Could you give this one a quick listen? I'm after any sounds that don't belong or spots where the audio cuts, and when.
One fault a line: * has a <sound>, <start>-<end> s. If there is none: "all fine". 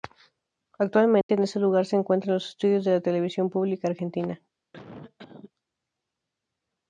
* has a dropout, 1.2-1.3 s
* has a cough, 4.7-5.5 s